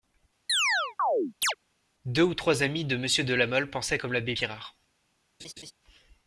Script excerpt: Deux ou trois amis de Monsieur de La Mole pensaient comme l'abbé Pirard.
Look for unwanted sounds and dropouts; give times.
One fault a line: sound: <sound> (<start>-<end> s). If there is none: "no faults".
sound: chirp (0.5-1.5 s)
sound: laugh (5.4-5.7 s)